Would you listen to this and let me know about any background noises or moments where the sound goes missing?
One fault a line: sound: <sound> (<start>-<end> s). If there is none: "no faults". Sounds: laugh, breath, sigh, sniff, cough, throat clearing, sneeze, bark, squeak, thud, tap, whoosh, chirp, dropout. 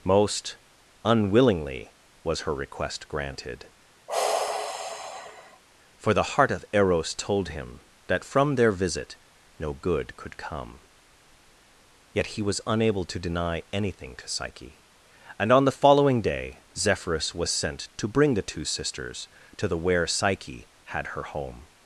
sound: sigh (4.1-5.6 s)